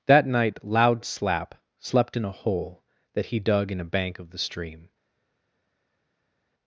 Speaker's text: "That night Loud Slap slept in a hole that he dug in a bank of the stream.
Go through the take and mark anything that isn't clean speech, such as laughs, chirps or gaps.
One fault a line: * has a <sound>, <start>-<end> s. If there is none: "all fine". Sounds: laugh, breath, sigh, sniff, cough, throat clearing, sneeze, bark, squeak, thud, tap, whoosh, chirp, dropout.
all fine